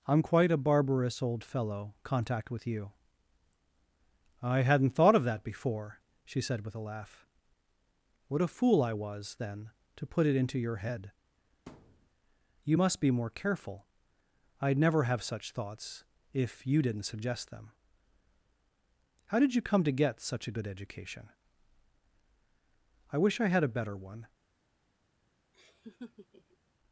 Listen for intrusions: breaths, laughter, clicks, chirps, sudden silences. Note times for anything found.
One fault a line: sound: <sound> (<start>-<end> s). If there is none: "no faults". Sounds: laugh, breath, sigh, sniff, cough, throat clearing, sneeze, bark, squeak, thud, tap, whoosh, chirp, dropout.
sound: thud (11.7-12.1 s)
sound: laugh (25.5-26.6 s)